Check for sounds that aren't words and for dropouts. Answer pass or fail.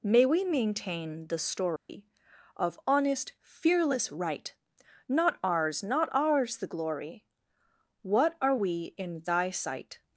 fail